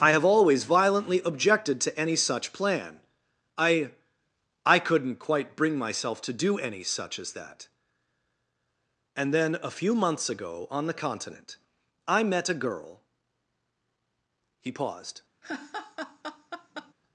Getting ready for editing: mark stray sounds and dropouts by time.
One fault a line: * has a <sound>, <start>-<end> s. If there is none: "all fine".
* has a laugh, 15.4-16.9 s